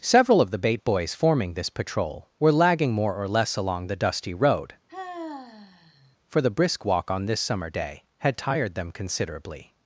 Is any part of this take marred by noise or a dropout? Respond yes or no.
yes